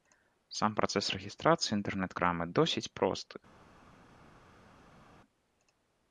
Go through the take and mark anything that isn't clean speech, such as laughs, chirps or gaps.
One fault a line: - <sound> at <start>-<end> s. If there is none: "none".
none